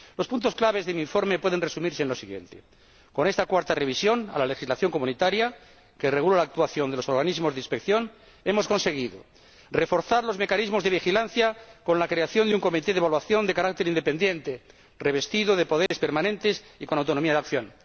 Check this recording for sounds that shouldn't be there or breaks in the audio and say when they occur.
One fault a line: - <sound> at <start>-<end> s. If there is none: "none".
- dropout at 15.9-15.9 s